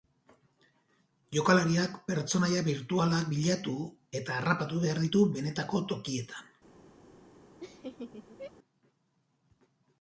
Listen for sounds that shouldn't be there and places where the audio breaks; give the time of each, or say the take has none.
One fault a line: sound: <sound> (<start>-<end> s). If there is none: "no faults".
sound: laugh (7.6-8.5 s)